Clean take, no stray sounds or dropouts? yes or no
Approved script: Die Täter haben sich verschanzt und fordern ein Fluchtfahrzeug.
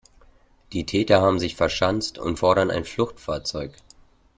yes